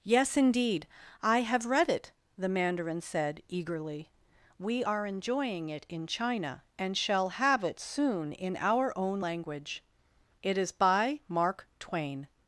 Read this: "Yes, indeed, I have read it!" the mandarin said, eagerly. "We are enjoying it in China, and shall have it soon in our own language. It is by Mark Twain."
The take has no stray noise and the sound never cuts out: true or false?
true